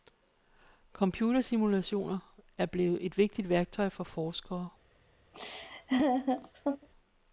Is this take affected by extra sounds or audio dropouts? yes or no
yes